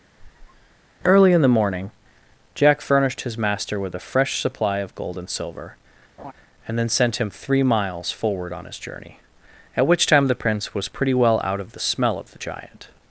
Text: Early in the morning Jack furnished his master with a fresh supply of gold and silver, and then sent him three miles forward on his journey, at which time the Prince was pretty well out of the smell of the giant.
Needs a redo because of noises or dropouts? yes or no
yes